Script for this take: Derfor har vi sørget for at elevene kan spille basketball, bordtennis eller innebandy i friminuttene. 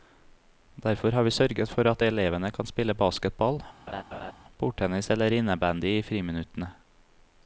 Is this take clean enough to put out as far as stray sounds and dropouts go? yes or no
no